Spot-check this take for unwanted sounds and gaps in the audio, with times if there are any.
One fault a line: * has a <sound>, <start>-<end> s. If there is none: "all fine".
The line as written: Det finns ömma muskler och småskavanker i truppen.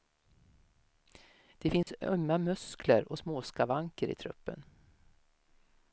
* has a dropout, 1.8-1.9 s